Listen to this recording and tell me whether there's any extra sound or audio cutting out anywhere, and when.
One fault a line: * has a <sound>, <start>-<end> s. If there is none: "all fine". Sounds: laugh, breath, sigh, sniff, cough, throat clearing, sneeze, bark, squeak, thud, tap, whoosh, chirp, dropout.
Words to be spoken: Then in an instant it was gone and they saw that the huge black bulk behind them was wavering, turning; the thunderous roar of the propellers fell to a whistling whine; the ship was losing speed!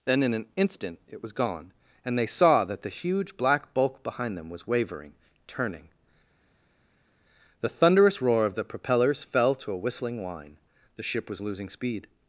all fine